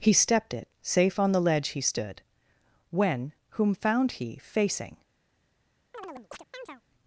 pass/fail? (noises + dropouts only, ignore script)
fail